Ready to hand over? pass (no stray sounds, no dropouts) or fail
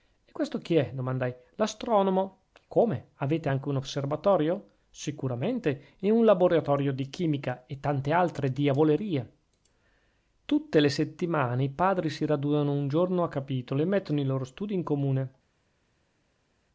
pass